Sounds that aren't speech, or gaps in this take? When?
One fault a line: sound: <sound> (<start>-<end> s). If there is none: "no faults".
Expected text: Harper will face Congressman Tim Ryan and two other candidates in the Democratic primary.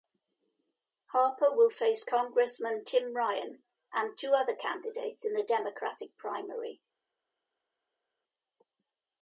no faults